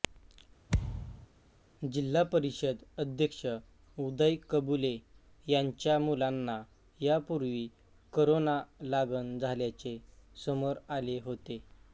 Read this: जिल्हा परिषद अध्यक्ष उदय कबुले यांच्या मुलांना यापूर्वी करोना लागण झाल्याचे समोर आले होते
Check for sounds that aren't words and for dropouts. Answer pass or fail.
fail